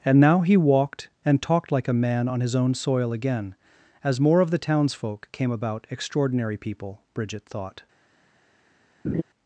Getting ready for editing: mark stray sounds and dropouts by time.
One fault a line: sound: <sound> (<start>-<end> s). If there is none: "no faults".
sound: laugh (9.0-9.2 s)